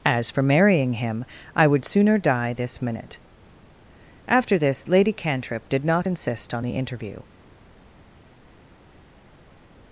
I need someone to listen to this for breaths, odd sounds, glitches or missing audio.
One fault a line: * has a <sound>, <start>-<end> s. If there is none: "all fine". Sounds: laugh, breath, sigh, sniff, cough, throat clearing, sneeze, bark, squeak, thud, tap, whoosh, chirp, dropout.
all fine